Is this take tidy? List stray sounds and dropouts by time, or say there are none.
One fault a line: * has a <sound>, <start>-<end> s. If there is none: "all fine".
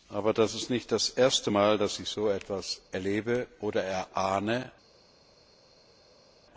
all fine